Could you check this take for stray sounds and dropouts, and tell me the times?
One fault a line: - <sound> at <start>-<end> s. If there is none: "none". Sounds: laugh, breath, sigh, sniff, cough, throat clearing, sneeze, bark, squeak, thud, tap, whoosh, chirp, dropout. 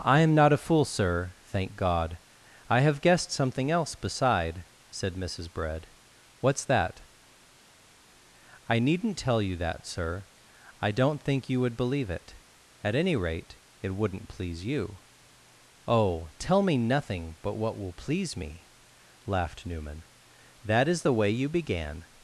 none